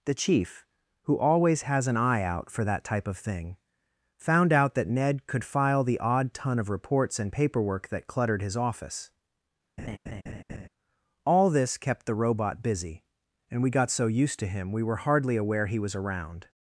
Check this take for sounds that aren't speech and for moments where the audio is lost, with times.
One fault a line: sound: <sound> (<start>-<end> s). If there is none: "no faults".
sound: laugh (9.8-10.7 s)